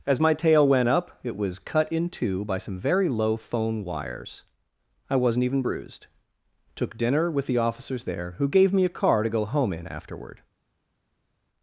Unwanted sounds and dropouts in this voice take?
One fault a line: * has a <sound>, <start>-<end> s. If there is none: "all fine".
all fine